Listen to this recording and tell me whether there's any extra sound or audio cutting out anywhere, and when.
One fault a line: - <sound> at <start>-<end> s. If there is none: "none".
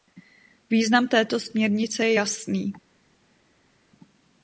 none